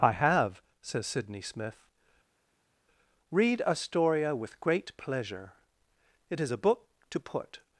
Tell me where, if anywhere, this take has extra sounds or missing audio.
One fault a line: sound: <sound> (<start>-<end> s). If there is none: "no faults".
no faults